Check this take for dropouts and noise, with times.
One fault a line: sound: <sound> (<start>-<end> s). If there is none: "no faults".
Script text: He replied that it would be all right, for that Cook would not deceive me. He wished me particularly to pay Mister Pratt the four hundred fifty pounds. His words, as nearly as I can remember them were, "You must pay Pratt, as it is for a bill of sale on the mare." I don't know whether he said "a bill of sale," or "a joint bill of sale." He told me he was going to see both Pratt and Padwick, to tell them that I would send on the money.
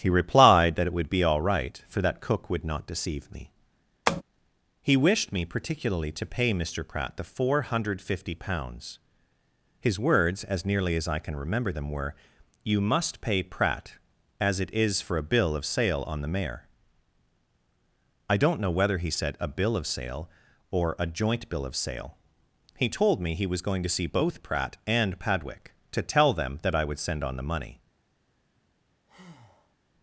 sound: tap (4.1-4.2 s)
sound: breath (29.1-29.8 s)